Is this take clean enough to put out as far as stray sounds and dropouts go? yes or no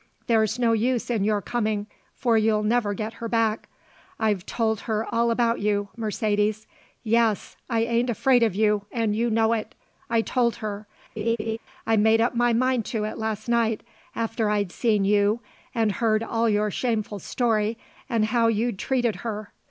no